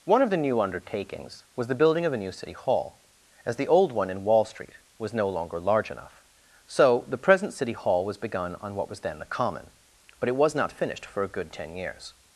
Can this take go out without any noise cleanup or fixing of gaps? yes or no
yes